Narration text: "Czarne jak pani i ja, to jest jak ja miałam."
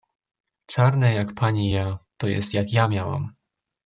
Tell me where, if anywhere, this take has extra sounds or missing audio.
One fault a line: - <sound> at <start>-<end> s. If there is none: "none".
none